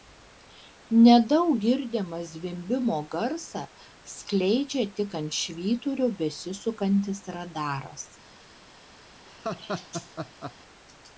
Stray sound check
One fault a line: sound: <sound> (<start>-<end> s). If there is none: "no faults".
sound: laugh (9.3-10.5 s)